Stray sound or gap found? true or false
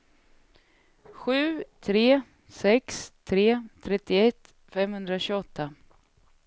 false